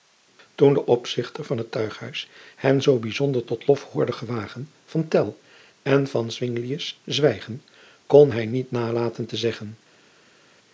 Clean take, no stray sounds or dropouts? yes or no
yes